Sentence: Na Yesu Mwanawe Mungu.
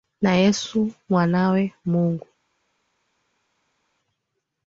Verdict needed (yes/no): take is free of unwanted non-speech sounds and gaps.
yes